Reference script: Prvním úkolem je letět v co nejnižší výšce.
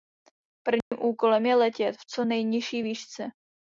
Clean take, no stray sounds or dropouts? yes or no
no